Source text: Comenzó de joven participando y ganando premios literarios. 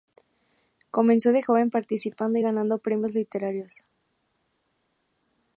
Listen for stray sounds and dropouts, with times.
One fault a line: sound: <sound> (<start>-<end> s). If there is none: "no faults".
no faults